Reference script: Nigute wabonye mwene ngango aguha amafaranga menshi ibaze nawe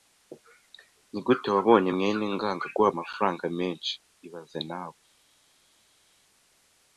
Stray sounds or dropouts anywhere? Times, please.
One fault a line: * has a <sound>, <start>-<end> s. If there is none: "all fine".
all fine